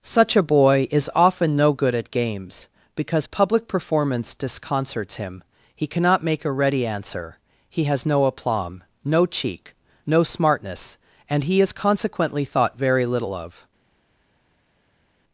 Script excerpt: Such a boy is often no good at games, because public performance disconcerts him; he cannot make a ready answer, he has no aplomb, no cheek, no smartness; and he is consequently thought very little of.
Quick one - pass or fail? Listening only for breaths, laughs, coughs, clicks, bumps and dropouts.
pass